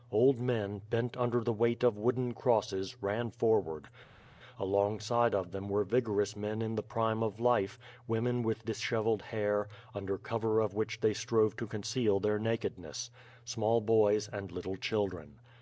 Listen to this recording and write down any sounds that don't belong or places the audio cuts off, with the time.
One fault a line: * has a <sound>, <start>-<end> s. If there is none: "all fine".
all fine